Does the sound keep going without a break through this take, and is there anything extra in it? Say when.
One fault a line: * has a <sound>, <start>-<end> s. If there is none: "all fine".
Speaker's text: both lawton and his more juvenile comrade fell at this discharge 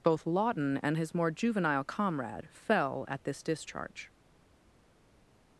all fine